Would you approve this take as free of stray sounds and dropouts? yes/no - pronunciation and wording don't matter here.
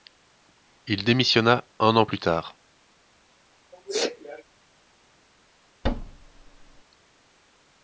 no